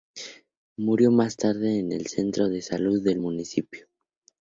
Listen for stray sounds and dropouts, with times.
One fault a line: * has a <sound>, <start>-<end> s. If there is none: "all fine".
all fine